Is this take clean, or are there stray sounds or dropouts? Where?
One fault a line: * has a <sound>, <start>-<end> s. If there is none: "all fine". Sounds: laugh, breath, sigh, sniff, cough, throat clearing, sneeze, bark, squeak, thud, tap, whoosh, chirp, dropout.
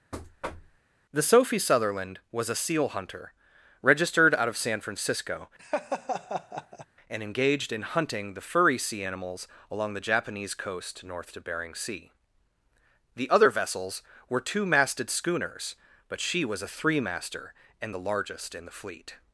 * has a thud, 0.1-0.8 s
* has a laugh, 5.6-6.9 s